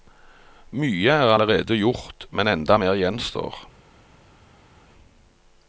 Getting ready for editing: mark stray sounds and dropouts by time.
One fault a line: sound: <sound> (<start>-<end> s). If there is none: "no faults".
no faults